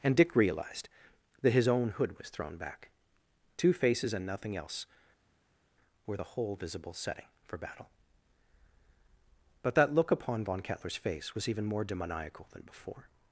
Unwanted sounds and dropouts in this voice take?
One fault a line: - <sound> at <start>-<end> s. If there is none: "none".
none